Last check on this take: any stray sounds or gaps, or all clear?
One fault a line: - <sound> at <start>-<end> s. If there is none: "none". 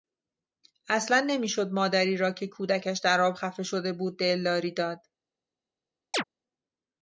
- chirp at 6.1-6.2 s